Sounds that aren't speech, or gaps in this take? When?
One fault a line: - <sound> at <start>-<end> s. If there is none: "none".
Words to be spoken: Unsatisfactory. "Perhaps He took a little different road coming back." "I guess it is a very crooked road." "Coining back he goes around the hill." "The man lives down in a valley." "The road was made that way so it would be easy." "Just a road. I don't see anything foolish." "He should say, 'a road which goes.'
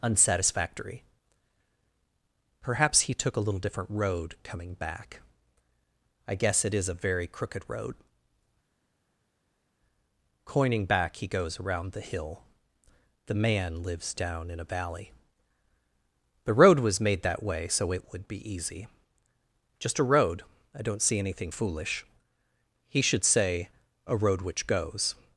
none